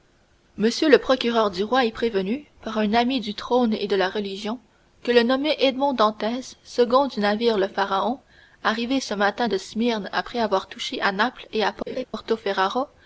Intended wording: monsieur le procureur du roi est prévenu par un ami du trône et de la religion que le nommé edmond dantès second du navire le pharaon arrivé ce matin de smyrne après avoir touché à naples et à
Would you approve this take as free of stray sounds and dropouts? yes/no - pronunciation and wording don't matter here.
no